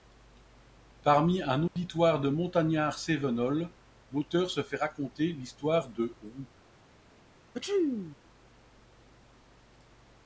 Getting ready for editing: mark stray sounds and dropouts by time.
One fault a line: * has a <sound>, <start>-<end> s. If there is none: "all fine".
* has a dropout, 1.7-1.8 s
* has a sneeze, 7.5-8.2 s